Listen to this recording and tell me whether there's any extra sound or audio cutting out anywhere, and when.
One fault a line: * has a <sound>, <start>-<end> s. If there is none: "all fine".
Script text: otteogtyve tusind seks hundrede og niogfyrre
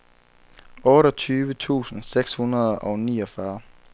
all fine